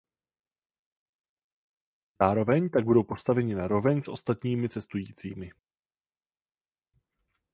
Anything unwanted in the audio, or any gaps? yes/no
no